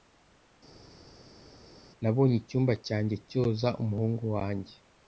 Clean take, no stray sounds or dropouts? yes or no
yes